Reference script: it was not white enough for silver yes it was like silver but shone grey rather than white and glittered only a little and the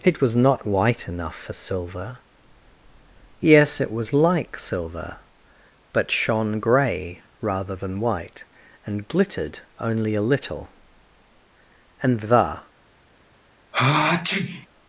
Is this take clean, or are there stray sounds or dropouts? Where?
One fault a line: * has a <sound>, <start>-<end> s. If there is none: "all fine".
* has a sneeze, 13.7-14.7 s